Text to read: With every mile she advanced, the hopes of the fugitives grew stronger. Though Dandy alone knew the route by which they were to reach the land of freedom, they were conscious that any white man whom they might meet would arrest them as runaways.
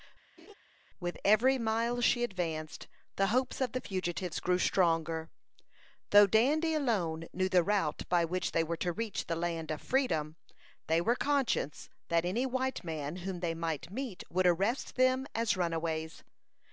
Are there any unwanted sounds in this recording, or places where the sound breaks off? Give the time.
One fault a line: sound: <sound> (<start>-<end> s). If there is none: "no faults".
sound: laugh (0.4-0.5 s)